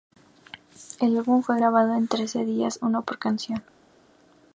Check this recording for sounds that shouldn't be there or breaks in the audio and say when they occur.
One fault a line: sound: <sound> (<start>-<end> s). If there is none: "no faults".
no faults